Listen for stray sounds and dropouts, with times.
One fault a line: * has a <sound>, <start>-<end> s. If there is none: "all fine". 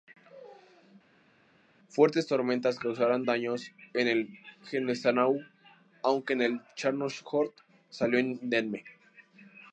all fine